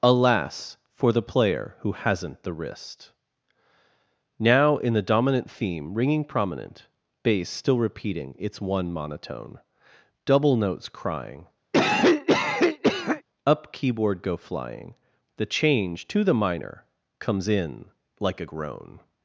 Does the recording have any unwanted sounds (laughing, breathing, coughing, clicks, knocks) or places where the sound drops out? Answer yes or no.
yes